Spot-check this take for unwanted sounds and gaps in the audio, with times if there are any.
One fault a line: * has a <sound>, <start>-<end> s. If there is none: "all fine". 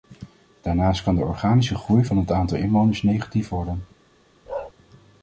* has a bark, 4.5-4.7 s